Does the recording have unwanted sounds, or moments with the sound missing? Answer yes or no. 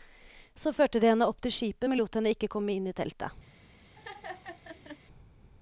yes